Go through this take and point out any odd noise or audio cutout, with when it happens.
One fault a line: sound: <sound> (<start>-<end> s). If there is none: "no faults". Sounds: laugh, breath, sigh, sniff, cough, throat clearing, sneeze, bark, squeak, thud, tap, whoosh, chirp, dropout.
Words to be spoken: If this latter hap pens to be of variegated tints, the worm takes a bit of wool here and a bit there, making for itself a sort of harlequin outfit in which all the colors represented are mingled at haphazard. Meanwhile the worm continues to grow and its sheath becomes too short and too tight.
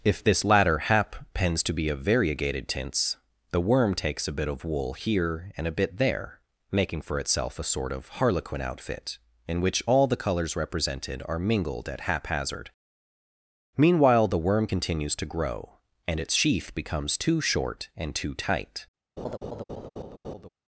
sound: laugh (19.2-20.5 s)